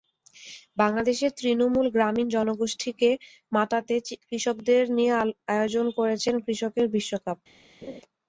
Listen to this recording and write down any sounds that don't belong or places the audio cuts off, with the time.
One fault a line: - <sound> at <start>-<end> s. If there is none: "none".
- laugh at 7.8-8.0 s